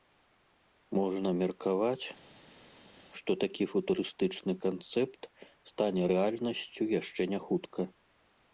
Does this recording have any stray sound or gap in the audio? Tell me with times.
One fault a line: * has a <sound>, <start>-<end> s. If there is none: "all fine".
all fine